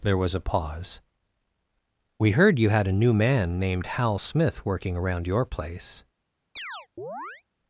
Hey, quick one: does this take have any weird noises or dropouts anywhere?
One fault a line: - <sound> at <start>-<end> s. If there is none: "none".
- chirp at 6.6-7.4 s